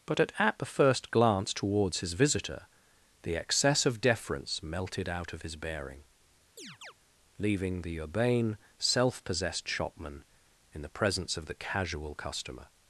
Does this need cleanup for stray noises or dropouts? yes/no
yes